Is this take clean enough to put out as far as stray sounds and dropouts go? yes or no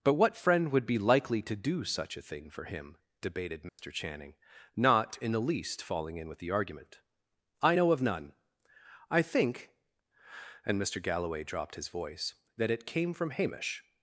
no